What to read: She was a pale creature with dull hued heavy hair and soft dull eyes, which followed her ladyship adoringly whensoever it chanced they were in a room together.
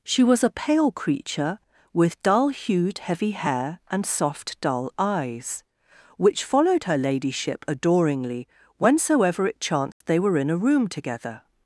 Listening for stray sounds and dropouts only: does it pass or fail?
fail